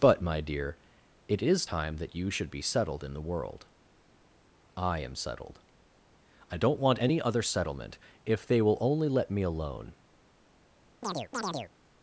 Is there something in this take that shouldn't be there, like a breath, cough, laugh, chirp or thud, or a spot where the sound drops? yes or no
yes